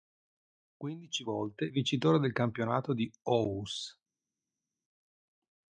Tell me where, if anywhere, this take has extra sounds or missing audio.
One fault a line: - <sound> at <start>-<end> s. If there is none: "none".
none